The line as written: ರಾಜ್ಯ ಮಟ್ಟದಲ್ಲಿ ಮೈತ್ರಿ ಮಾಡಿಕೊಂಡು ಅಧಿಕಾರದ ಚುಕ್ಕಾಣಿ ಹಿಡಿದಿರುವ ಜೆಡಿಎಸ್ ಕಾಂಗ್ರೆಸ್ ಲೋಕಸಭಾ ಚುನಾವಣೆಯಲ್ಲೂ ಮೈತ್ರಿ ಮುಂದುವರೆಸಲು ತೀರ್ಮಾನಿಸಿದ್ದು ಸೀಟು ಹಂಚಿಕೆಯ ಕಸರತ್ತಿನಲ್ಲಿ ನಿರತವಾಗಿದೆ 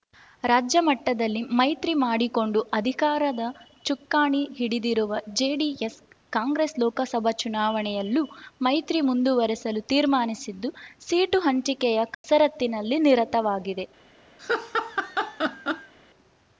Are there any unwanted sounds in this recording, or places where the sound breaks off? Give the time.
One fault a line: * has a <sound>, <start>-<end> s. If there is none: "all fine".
* has a dropout, 12.1-12.2 s
* has a laugh, 14.4-15.9 s